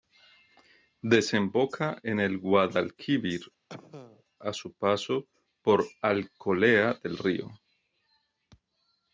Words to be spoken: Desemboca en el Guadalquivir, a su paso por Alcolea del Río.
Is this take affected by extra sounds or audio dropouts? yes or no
yes